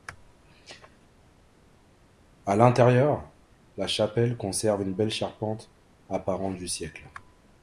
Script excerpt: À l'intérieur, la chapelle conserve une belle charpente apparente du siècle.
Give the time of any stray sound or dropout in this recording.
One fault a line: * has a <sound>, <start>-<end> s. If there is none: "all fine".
all fine